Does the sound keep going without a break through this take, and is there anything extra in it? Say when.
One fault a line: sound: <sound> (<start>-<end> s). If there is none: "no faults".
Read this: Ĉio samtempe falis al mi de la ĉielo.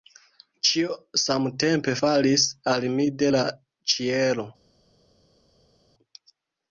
no faults